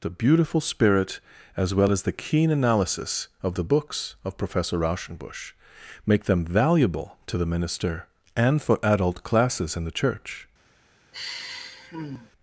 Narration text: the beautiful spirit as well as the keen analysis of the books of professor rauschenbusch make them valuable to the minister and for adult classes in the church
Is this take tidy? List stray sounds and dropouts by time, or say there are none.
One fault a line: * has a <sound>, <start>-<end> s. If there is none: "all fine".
* has a sigh, 11.1-12.3 s